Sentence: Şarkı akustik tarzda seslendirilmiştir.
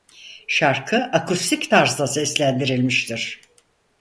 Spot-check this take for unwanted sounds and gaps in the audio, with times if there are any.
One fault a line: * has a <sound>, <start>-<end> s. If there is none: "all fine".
all fine